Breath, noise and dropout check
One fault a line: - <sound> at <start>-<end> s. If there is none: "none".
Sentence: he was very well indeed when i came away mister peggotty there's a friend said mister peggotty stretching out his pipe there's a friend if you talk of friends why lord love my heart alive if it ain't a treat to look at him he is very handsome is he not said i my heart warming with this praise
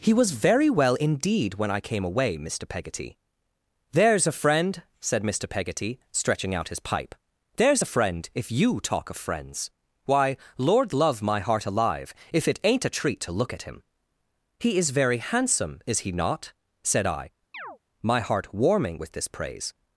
- chirp at 17.5-17.8 s